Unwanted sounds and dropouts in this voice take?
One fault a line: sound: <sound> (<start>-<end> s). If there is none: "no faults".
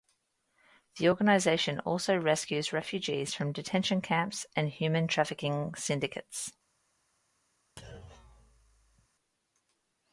sound: thud (7.8-9.1 s)